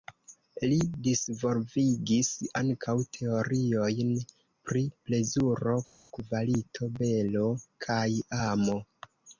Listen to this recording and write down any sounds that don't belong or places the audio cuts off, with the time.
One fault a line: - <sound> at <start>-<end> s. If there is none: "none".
none